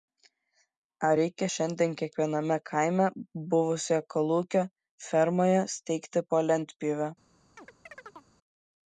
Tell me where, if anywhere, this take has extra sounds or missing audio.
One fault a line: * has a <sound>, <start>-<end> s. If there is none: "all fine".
* has a chirp, 7.6-8.3 s